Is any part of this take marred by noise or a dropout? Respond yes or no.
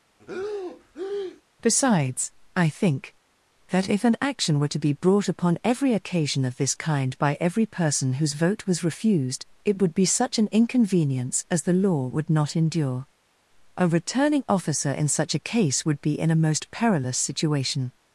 yes